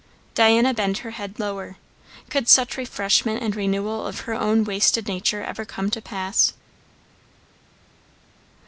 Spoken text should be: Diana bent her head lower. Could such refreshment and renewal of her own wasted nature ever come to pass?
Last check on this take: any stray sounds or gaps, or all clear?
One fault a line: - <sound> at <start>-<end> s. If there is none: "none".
none